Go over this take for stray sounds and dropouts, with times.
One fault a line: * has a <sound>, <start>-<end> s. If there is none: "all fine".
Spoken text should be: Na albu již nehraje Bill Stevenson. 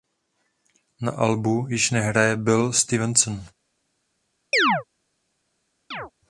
* has a chirp, 4.5-4.8 s
* has a chirp, 5.9-6.1 s